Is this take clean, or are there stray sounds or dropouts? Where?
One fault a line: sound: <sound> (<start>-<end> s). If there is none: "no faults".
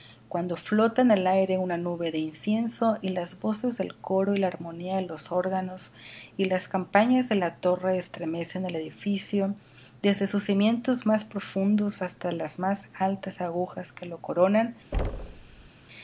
sound: thud (14.9-15.7 s)